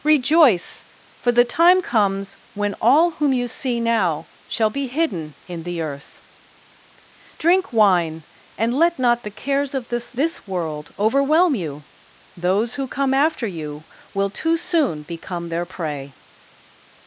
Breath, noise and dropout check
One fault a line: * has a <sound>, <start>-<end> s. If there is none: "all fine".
all fine